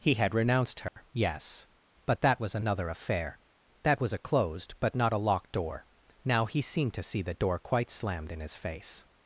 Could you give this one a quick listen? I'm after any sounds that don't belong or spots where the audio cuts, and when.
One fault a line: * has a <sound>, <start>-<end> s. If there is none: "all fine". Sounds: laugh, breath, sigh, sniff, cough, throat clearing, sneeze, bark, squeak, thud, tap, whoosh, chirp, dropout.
* has a dropout, 0.9-1.0 s